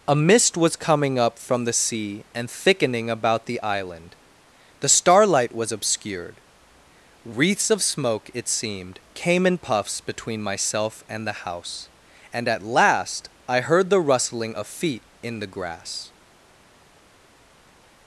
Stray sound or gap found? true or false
false